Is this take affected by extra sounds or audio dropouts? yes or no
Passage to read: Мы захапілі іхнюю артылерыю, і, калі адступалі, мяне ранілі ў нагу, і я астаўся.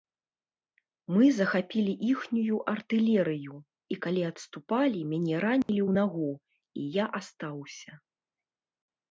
yes